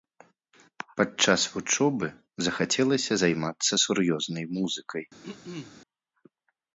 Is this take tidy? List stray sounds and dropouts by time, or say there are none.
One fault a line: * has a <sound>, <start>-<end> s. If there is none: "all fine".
* has a throat clearing, 5.2-5.8 s